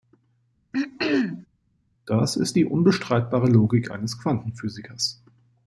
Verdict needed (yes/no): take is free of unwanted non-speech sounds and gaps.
no